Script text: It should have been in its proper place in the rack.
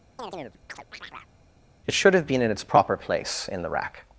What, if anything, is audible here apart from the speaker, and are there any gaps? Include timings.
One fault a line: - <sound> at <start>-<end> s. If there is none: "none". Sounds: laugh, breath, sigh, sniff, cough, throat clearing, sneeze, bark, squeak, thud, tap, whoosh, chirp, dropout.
- chirp at 0.2-1.3 s